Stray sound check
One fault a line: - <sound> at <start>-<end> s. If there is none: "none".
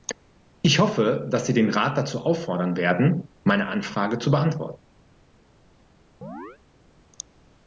- chirp at 6.2-6.6 s